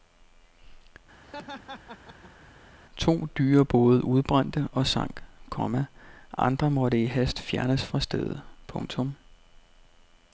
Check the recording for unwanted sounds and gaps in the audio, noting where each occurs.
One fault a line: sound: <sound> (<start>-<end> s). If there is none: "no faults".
sound: laugh (1.2-2.5 s)